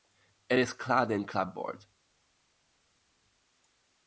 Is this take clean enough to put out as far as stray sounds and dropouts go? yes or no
yes